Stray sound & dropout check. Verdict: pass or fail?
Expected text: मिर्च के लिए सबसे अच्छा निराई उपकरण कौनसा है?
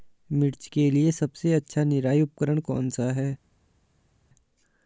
pass